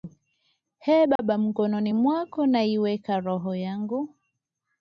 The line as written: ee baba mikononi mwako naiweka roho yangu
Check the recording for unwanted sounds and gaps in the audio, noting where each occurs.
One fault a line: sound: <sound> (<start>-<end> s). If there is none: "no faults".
sound: dropout (1.2-1.2 s)